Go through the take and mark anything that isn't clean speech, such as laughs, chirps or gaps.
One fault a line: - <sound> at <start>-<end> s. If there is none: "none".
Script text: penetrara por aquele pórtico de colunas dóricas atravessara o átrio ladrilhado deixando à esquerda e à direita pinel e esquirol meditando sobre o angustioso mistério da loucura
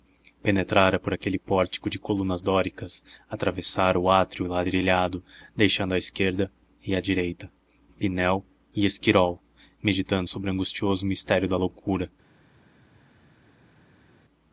none